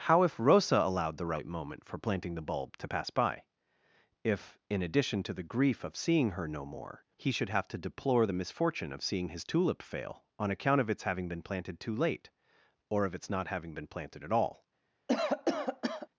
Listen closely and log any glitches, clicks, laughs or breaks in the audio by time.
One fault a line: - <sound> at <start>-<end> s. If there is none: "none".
- cough at 15.1-16.1 s